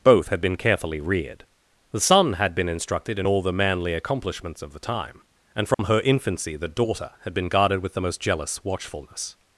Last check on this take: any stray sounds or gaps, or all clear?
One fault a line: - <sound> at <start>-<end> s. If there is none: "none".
- dropout at 5.7-5.8 s